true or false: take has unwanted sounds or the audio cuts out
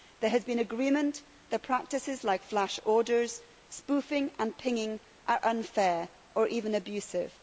false